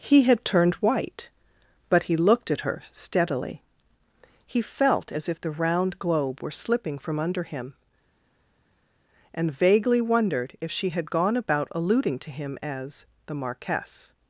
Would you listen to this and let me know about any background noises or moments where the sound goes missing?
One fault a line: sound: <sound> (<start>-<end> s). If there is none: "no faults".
no faults